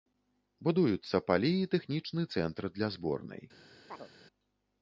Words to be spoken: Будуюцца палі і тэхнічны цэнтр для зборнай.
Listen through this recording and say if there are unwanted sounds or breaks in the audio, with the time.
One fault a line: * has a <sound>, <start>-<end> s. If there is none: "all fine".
* has a chirp, 3.9-4.1 s